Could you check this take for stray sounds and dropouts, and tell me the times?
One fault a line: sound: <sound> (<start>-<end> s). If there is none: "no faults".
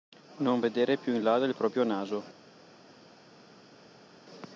no faults